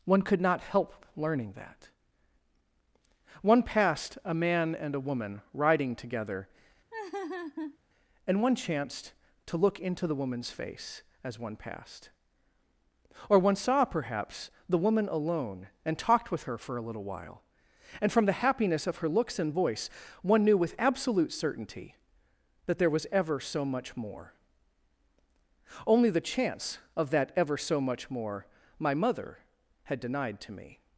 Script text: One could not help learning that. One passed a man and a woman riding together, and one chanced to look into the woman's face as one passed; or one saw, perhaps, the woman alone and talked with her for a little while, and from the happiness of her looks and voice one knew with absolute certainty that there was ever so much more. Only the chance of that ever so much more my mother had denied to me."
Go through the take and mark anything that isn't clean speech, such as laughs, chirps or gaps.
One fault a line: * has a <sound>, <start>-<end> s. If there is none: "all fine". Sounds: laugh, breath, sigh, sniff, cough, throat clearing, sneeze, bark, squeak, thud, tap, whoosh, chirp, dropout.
* has a laugh, 6.9-7.8 s